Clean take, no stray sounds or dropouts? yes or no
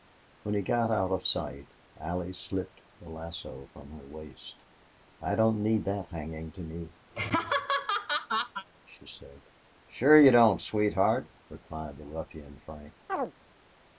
no